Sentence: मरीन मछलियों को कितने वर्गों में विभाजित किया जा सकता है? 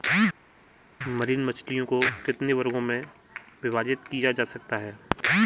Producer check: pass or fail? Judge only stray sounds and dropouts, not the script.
pass